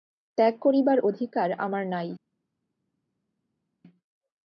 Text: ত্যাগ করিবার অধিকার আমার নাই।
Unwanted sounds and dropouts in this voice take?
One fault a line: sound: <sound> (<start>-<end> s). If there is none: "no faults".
no faults